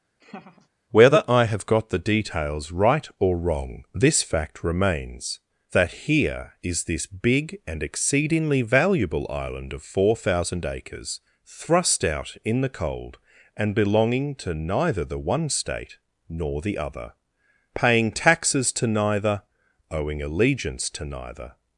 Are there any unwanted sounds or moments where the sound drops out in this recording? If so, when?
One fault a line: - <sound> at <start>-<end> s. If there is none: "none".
- laugh at 0.2-0.7 s